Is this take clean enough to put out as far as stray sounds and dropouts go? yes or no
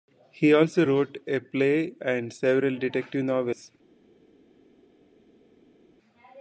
yes